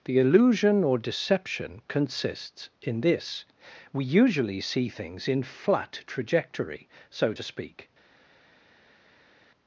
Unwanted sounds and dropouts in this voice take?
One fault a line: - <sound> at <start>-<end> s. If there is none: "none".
none